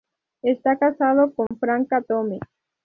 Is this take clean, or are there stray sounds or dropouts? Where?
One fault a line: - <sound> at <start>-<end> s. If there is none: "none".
- dropout at 1.5-1.5 s